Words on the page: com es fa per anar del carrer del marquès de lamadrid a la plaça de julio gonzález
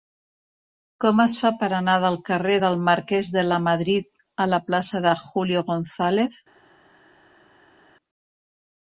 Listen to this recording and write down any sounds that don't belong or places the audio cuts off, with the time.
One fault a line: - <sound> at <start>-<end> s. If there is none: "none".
none